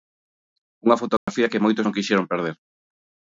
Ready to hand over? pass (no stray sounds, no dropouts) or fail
fail